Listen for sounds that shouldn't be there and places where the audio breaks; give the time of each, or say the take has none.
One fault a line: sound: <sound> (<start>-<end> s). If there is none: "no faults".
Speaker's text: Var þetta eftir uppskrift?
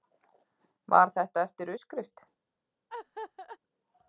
sound: laugh (2.9-3.6 s)